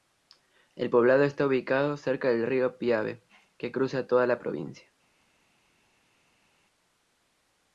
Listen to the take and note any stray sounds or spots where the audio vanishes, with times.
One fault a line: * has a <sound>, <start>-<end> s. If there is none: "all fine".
all fine